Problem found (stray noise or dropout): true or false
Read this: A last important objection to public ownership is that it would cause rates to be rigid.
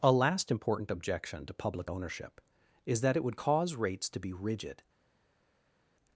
false